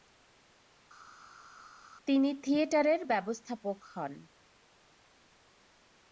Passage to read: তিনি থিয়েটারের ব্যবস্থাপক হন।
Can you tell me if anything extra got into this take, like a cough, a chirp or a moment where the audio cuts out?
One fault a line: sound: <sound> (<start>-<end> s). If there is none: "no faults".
no faults